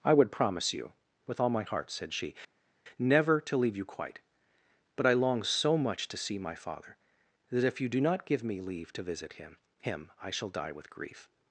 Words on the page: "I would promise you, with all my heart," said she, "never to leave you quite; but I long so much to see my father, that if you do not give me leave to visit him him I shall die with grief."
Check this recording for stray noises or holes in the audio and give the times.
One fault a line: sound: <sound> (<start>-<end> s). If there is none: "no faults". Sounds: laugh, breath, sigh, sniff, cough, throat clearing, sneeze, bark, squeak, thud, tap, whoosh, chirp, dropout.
no faults